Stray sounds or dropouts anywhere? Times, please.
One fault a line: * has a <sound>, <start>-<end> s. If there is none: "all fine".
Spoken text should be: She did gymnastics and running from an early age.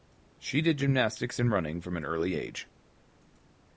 all fine